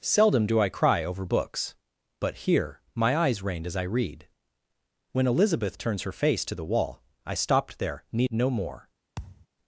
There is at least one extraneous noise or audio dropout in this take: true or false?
true